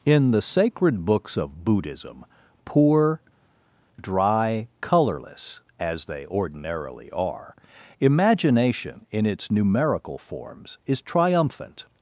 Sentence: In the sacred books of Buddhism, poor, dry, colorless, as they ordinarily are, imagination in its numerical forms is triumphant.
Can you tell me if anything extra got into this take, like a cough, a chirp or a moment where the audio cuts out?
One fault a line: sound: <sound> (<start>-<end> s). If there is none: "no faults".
no faults